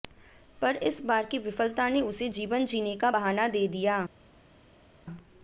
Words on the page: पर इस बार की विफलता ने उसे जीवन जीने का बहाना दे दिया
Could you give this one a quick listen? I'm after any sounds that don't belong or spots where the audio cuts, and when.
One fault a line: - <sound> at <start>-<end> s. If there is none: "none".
none